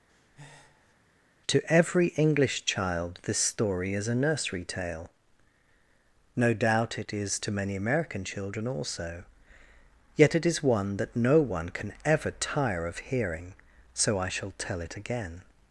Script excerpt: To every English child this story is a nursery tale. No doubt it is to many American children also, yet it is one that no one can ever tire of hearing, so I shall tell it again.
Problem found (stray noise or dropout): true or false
true